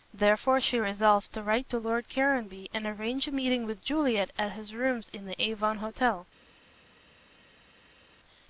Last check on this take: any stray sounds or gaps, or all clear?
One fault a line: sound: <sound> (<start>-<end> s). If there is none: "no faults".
no faults